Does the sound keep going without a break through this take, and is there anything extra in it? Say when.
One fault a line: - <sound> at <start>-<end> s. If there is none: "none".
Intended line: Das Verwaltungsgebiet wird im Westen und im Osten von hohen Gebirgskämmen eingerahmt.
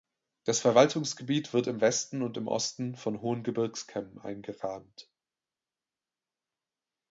none